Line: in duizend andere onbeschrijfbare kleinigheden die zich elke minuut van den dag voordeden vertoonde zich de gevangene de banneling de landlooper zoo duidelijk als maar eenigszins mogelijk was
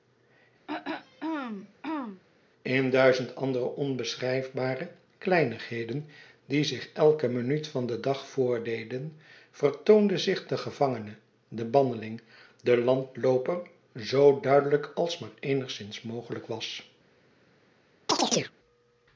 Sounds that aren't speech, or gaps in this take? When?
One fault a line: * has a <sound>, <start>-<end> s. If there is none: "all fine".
* has a throat clearing, 0.7-2.2 s
* has a chirp, 18.1-18.5 s